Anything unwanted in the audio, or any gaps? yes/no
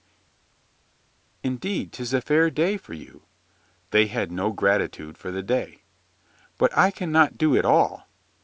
no